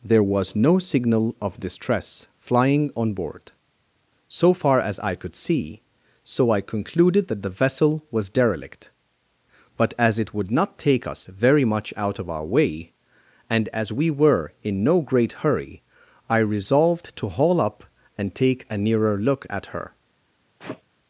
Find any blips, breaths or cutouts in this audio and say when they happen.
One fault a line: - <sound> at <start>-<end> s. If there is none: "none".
- sneeze at 20.6-20.8 s